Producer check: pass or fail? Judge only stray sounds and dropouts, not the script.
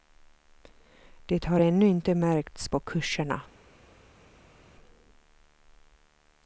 pass